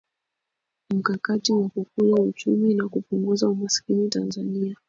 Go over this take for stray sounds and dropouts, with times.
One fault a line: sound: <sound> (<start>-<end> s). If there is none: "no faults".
no faults